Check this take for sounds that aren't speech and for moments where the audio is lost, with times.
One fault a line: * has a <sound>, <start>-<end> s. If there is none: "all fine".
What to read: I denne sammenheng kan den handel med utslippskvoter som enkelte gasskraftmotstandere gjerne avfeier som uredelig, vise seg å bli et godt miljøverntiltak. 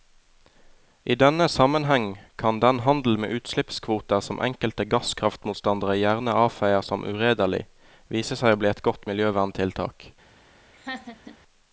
* has a laugh, 10.7-11.4 s